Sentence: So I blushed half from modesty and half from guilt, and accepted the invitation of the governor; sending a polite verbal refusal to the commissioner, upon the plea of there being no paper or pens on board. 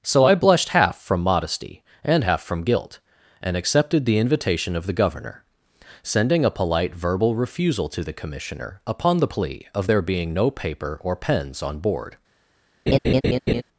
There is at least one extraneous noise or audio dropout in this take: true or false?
true